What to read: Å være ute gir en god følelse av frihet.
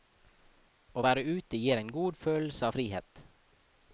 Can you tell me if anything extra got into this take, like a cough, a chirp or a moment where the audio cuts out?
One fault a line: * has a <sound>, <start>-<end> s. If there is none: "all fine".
all fine